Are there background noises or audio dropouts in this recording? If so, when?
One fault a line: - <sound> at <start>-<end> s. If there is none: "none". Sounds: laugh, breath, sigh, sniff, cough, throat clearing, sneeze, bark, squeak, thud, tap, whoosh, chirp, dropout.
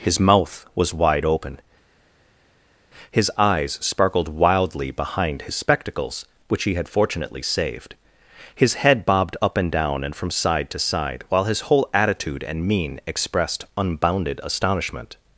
none